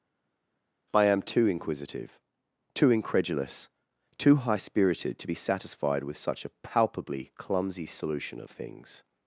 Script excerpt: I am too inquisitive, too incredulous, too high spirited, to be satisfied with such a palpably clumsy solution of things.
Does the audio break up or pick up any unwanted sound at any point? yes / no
no